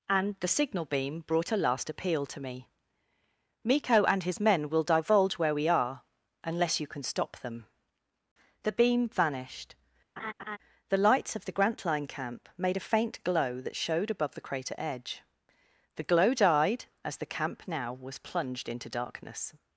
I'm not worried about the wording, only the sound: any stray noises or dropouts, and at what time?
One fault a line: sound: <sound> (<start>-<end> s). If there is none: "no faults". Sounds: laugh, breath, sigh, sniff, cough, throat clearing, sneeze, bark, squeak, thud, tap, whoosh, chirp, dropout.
sound: laugh (10.2-10.6 s)